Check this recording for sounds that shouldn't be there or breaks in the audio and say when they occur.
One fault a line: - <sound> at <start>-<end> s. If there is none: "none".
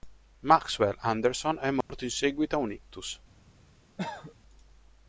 - dropout at 1.8-1.9 s
- cough at 4.0-4.3 s